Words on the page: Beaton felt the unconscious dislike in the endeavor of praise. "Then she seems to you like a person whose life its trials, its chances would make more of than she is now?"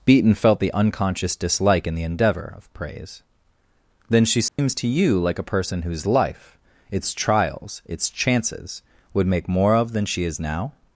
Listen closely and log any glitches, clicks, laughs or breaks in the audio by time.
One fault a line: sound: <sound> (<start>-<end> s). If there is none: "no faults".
sound: dropout (4.5-4.6 s)